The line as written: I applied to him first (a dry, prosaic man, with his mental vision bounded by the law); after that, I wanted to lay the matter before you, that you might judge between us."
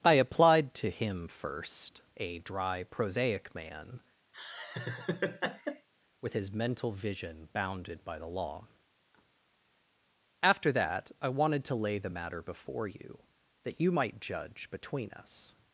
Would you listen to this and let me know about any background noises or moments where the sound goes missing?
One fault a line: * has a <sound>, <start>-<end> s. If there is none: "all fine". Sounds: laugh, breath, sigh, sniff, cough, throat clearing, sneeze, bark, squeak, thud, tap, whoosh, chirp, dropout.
* has a laugh, 4.3-5.9 s